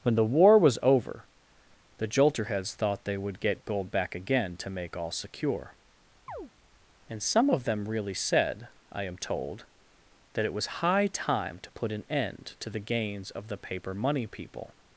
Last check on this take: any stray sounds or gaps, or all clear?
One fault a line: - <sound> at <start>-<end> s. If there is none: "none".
- chirp at 6.3-6.5 s